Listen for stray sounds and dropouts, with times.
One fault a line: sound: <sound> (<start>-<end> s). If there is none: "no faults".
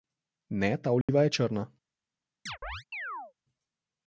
sound: dropout (1.0-1.1 s)
sound: chirp (2.5-3.3 s)